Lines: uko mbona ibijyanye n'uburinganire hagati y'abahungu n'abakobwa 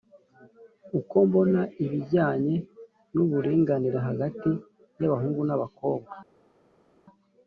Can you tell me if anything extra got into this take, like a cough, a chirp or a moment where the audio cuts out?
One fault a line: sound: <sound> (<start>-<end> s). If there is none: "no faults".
no faults